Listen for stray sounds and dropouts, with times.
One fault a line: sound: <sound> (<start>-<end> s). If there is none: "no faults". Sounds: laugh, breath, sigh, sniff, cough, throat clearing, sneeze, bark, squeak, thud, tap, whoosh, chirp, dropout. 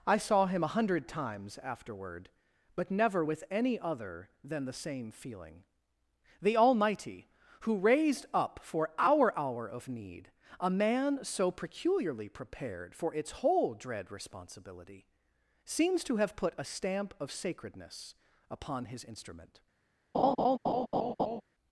sound: laugh (20.1-21.4 s)